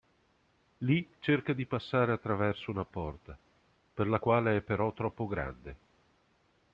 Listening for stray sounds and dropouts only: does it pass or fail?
pass